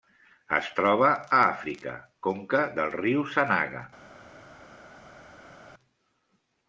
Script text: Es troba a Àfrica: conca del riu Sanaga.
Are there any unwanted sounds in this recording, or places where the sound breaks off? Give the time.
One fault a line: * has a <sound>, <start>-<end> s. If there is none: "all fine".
all fine